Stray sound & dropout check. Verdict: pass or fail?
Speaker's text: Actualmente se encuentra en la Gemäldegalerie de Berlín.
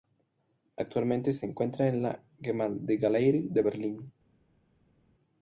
pass